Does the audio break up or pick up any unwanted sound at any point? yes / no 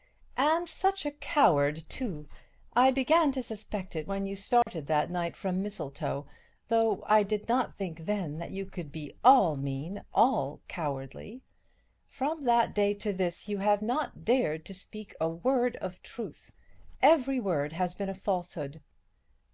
yes